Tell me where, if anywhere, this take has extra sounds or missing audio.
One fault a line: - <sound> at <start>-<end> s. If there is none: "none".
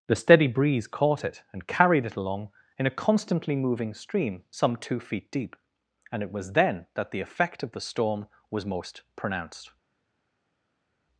none